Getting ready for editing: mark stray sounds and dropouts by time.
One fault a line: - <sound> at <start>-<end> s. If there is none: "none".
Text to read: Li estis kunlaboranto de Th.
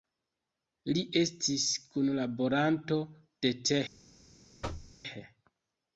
- thud at 4.6-5.0 s